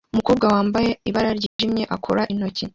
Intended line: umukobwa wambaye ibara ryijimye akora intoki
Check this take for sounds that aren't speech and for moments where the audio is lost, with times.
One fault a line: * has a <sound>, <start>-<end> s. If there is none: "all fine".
* has a dropout, 1.5-1.6 s